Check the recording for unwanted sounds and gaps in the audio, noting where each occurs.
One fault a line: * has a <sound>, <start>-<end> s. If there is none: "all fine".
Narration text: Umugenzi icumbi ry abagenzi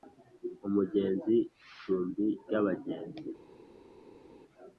all fine